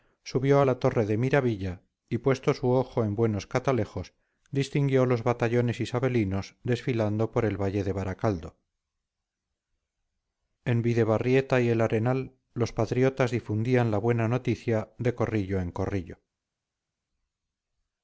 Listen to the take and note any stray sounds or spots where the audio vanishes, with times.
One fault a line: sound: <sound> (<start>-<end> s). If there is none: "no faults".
no faults